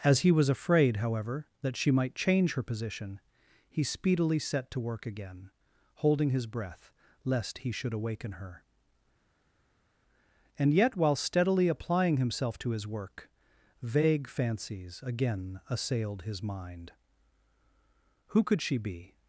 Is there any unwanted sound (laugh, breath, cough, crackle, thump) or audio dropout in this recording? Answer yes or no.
no